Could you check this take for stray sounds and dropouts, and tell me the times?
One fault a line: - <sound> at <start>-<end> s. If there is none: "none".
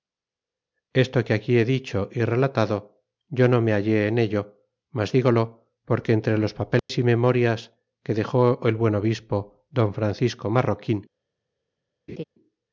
- dropout at 6.8-6.9 s
- laugh at 12.1-12.2 s